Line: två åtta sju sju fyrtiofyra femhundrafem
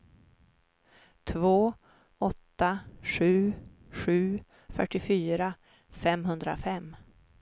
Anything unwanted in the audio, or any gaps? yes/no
no